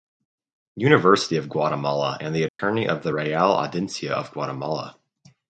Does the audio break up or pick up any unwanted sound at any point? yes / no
yes